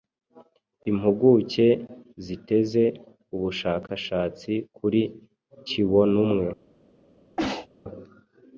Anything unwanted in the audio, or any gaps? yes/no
yes